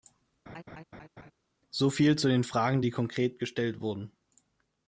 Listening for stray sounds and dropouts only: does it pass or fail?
fail